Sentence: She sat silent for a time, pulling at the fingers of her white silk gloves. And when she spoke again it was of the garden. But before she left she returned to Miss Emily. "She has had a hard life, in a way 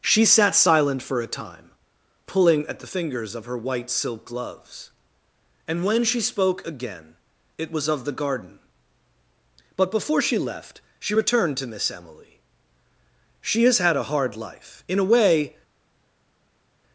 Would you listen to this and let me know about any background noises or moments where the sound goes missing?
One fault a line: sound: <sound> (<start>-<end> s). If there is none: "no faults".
no faults